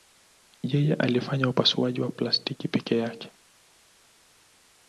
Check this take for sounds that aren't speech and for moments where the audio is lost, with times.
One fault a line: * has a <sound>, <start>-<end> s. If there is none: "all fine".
all fine